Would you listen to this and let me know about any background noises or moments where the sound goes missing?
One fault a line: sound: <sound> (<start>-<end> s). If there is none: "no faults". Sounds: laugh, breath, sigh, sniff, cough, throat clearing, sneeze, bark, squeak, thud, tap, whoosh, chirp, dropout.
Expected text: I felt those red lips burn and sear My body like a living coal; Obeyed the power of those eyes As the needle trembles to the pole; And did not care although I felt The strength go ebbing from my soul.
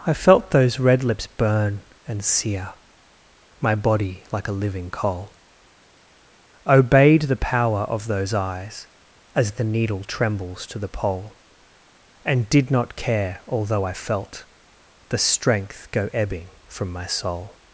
no faults